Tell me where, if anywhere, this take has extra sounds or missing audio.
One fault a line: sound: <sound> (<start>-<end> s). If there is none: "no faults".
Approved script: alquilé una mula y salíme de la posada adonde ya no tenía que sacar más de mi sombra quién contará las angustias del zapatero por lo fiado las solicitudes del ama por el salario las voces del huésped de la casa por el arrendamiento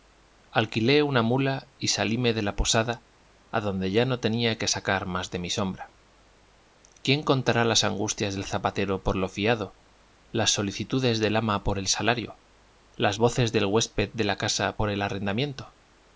no faults